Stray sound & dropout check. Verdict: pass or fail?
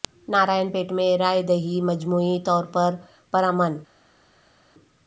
pass